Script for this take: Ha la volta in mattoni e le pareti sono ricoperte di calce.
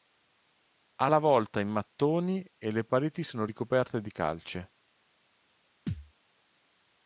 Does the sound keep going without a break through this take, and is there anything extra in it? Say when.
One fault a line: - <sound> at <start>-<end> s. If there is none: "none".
- thud at 5.9-6.1 s